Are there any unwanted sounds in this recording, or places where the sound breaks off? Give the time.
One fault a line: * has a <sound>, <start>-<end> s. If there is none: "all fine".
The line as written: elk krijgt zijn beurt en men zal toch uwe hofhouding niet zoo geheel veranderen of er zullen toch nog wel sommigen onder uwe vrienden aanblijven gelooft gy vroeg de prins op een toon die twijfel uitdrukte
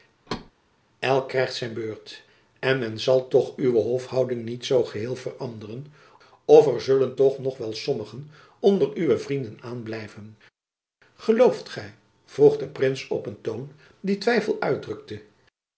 * has a thud, 0.3-0.5 s